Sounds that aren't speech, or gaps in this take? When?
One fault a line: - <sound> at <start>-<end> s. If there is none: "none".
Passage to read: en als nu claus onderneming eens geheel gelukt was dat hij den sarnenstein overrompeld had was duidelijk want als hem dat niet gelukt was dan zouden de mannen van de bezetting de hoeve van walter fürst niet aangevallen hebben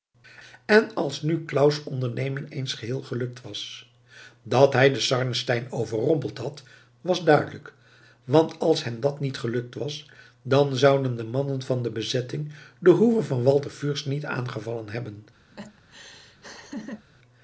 - laugh at 15.5-17.1 s